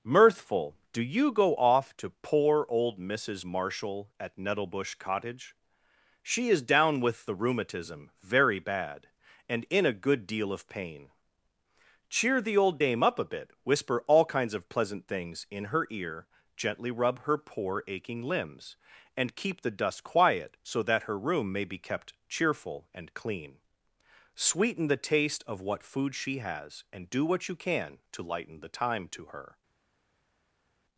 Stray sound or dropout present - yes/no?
no